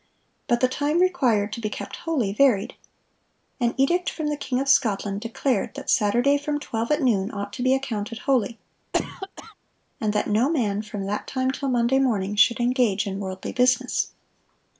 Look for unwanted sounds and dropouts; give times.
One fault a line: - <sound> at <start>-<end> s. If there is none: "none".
- cough at 8.9-9.5 s